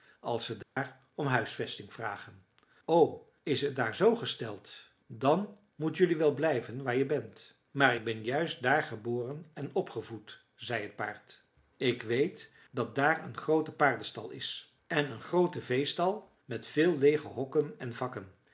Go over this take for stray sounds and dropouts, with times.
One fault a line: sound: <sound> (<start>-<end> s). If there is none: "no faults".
sound: dropout (0.6-0.8 s)